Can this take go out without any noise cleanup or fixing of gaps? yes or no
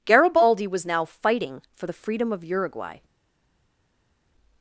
yes